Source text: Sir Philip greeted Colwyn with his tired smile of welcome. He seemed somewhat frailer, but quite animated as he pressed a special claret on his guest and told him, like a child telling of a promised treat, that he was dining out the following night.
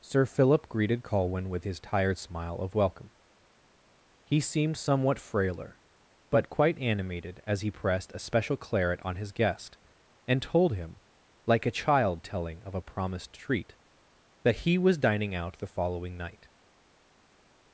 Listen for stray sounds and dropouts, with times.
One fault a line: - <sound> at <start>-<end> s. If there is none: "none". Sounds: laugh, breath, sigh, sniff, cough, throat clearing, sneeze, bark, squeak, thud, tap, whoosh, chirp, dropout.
none